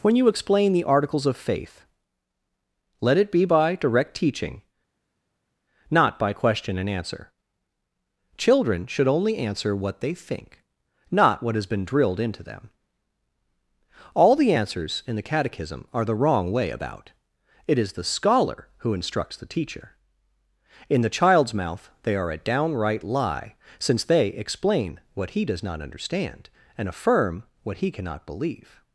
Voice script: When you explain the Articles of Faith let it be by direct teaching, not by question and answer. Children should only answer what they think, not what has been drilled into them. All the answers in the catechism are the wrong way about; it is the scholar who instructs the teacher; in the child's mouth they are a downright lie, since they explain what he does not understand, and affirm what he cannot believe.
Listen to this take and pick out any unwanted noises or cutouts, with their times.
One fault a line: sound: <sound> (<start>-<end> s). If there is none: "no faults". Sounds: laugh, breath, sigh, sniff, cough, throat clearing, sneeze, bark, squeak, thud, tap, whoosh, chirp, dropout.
no faults